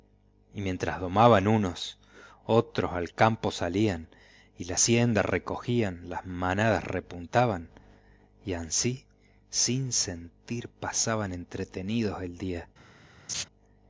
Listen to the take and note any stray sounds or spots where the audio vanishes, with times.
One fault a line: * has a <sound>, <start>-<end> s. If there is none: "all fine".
* has a laugh, 13.3-13.4 s